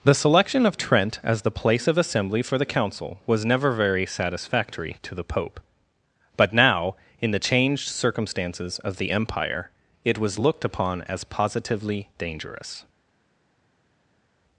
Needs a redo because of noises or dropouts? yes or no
no